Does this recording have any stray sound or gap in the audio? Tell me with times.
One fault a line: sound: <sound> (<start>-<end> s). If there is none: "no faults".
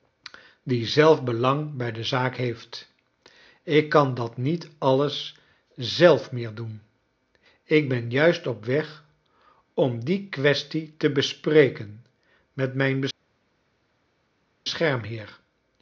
no faults